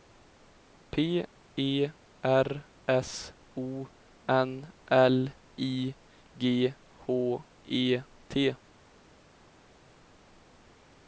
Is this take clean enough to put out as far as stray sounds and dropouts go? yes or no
yes